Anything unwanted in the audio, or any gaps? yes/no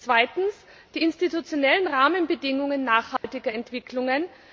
yes